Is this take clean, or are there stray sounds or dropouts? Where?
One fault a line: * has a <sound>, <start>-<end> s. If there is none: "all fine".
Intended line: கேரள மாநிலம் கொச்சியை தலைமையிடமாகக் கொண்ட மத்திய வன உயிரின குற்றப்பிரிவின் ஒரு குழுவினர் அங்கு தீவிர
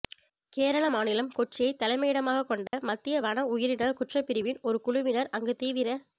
* has a dropout, 2.7-2.7 s